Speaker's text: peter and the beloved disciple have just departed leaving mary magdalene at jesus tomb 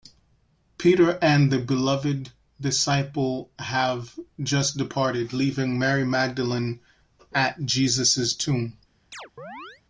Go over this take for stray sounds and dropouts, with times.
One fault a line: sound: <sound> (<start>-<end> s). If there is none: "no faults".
sound: chirp (9.1-9.8 s)